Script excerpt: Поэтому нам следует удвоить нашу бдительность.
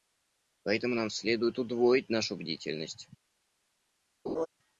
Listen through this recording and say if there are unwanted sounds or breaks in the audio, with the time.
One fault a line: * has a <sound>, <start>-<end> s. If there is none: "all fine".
* has a laugh, 4.3-4.5 s